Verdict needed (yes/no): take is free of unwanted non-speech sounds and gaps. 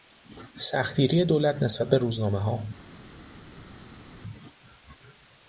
yes